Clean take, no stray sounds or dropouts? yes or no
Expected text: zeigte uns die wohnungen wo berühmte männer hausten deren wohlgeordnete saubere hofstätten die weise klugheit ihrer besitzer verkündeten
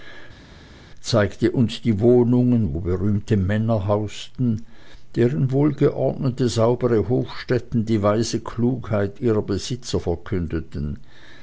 yes